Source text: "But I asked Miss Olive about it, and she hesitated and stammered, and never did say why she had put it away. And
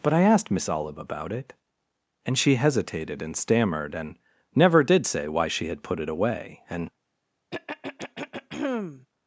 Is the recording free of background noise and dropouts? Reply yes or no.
no